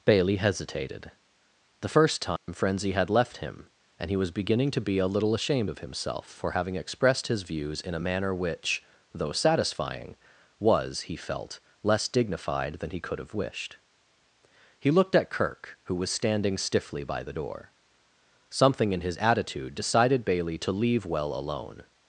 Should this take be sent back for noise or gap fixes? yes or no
yes